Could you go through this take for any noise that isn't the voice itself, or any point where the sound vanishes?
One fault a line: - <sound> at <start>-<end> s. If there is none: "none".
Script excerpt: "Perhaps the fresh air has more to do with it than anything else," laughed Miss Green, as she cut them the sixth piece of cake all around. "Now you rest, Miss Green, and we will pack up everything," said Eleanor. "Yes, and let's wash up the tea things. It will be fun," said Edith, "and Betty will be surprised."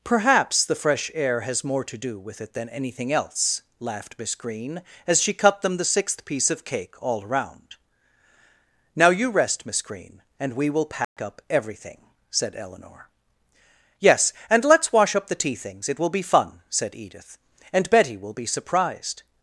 - dropout at 11.0-11.2 s